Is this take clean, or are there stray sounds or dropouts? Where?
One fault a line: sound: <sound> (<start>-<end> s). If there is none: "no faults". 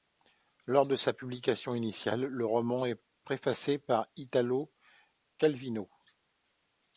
no faults